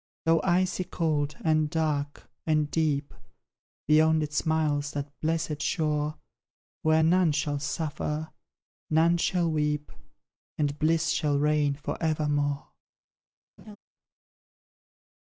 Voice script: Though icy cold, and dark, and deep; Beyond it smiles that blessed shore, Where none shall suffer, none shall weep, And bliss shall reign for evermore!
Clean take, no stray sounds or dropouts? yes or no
no